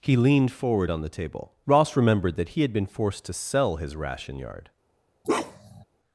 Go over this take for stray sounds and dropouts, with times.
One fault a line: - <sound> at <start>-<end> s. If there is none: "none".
- bark at 5.2-5.8 s